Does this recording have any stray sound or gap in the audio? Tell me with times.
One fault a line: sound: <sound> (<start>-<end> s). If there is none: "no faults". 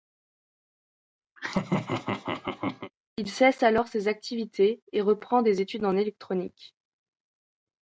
sound: laugh (1.4-2.9 s)